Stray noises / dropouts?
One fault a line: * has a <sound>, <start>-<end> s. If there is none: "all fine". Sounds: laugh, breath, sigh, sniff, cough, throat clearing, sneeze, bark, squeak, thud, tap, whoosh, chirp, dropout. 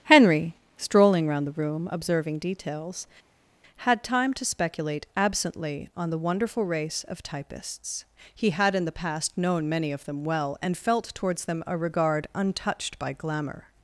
all fine